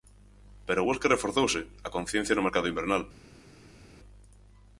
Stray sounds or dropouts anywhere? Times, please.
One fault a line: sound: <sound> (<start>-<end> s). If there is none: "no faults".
no faults